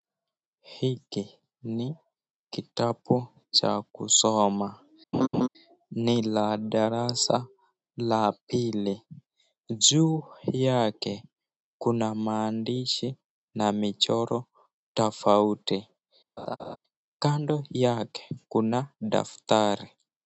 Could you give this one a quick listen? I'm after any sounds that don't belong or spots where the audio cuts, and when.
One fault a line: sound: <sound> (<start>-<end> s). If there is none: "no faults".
sound: laugh (5.1-5.5 s)
sound: laugh (16.4-16.8 s)